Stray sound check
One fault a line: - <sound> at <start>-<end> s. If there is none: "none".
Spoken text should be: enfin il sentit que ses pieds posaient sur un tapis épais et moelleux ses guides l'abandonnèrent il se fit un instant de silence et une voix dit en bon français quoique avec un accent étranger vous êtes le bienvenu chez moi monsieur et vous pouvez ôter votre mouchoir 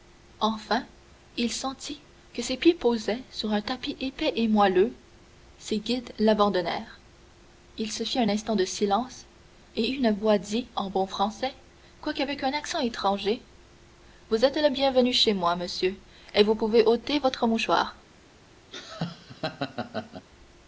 - laugh at 18.7-20.3 s